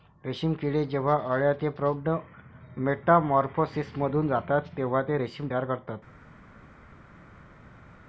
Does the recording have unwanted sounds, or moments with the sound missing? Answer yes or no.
no